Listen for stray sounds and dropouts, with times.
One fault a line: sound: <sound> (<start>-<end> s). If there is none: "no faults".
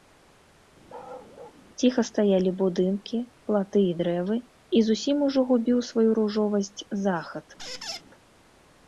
sound: bark (0.9-1.6 s)
sound: squeak (7.6-8.0 s)